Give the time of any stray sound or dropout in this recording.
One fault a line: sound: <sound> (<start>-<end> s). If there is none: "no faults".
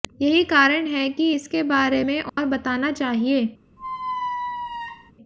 sound: dropout (2.3-2.4 s)
sound: squeak (3.8-5.1 s)